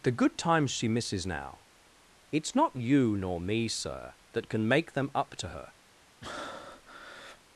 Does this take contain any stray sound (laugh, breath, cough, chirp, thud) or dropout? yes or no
yes